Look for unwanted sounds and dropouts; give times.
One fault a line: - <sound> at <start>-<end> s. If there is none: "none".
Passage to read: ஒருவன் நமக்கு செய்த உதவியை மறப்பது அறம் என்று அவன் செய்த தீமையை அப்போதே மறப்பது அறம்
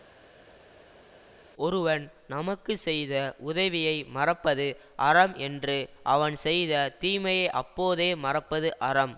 none